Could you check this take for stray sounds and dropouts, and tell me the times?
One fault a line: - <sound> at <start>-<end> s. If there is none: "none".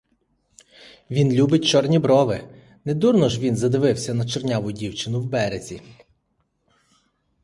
none